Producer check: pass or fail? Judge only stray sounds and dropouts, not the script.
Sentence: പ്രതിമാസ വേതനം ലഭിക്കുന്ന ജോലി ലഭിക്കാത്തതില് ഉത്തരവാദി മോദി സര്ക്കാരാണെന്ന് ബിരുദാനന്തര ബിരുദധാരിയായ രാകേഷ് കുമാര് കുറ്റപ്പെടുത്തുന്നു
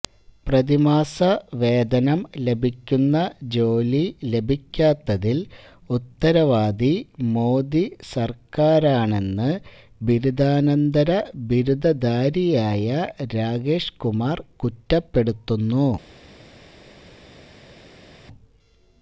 pass